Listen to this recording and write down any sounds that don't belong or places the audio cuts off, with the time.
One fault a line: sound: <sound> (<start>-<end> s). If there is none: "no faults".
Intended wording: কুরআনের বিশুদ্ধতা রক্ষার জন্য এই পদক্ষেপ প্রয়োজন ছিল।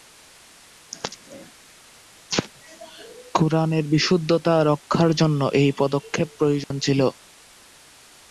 sound: dropout (6.6-6.7 s)